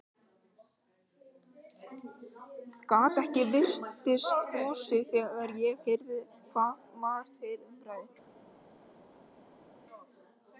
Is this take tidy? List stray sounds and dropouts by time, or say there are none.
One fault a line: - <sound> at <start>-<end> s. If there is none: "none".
none